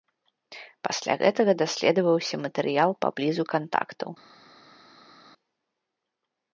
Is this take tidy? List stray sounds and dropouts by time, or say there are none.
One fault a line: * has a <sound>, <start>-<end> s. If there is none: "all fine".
all fine